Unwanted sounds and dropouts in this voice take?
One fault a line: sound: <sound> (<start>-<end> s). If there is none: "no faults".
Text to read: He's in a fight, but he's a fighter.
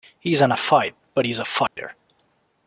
sound: dropout (1.7-1.8 s)